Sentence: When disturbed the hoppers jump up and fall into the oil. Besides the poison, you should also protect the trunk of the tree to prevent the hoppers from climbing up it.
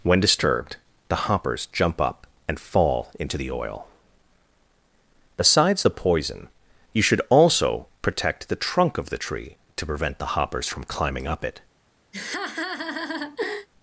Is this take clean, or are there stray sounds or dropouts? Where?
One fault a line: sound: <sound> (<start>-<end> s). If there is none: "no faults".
sound: laugh (12.1-13.7 s)